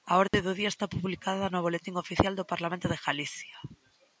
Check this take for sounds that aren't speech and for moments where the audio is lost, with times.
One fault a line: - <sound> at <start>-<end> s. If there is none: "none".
- dropout at 0.3-0.3 s